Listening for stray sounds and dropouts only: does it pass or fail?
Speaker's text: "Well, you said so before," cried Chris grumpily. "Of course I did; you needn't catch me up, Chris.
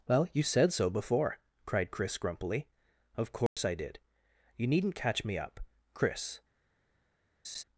fail